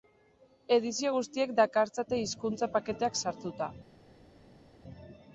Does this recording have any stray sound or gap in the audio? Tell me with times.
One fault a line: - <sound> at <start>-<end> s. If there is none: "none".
none